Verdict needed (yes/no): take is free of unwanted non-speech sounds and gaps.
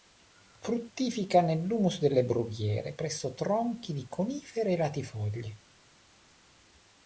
yes